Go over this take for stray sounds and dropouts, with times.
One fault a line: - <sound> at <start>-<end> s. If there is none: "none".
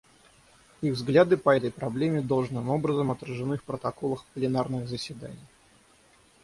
none